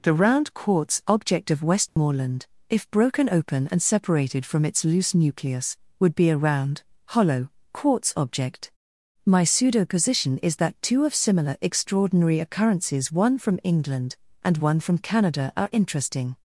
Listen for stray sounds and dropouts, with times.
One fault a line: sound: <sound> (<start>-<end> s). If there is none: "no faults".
sound: dropout (1.9-2.0 s)